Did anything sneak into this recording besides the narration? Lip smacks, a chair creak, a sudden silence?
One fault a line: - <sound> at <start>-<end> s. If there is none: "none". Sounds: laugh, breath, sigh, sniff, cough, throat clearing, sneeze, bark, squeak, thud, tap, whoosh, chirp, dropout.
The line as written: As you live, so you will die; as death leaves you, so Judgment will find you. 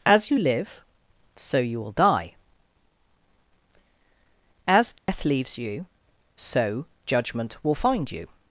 - dropout at 5.0-5.1 s